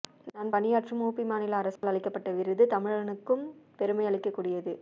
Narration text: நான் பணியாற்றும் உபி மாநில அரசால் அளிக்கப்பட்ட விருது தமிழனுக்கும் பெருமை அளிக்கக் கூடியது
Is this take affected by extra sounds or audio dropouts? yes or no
yes